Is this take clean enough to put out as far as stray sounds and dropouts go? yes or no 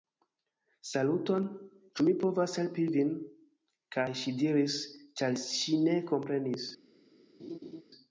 no